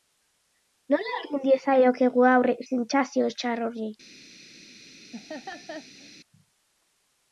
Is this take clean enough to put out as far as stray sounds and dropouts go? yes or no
no